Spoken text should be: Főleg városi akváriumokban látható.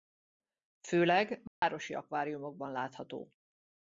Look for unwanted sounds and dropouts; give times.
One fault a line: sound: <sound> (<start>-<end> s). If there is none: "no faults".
sound: dropout (1.5-1.6 s)